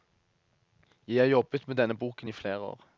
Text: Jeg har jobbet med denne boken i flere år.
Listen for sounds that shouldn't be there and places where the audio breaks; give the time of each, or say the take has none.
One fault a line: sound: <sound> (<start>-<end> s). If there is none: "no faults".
no faults